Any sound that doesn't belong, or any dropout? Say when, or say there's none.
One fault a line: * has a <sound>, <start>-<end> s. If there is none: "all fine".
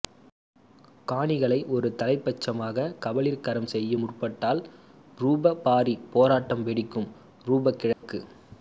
* has a dropout, 7.9-8.0 s